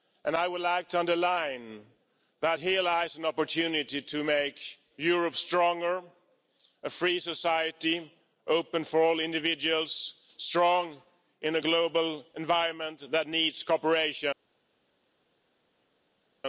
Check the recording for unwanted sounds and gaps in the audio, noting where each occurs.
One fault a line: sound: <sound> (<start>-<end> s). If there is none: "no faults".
no faults